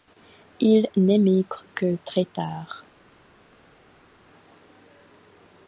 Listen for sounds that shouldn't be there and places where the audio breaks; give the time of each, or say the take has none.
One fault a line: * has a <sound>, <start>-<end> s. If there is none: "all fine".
all fine